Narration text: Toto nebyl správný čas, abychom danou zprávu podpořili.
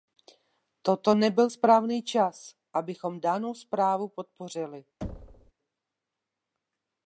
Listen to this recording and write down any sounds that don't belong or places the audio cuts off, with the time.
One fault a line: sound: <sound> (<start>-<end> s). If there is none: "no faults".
sound: thud (5.0-5.5 s)